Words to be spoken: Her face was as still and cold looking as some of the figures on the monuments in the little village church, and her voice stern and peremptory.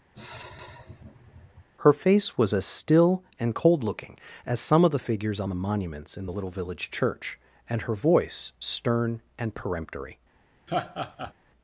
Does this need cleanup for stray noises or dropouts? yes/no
yes